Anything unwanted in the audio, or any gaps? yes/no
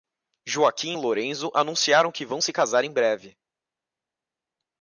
no